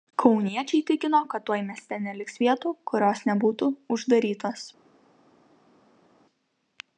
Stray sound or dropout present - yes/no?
no